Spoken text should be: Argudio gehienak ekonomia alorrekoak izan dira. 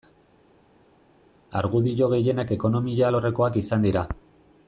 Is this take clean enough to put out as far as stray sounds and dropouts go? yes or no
yes